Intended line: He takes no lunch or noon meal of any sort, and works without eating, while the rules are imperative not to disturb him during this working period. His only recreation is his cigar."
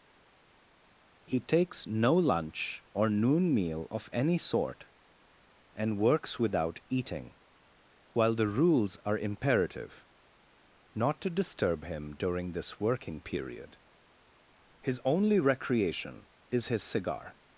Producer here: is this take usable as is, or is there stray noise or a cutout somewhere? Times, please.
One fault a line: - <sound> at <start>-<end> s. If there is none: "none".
none